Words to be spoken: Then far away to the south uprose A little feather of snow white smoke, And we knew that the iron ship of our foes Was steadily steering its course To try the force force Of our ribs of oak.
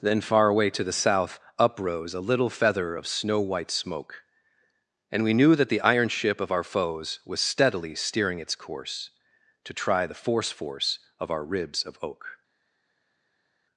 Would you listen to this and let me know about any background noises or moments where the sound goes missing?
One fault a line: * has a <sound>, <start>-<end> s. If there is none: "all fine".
all fine